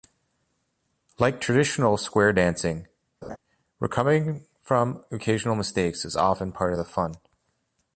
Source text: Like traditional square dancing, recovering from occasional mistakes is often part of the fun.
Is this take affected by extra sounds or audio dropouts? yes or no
yes